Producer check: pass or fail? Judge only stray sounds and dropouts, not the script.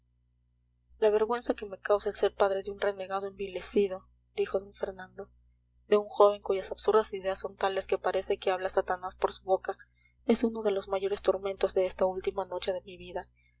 pass